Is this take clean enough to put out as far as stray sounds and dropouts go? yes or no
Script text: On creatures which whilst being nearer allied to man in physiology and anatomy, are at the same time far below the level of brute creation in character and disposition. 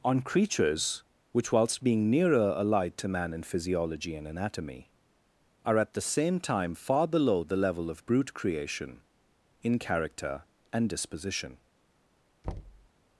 no